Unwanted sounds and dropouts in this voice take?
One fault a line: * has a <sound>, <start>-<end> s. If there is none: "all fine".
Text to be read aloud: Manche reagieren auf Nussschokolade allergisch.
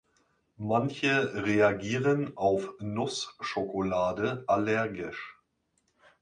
all fine